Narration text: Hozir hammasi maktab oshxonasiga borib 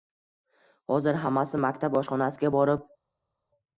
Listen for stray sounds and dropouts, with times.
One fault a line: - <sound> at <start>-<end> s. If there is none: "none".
none